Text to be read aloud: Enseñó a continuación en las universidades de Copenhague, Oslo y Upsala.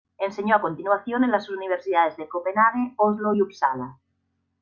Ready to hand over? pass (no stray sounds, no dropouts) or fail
pass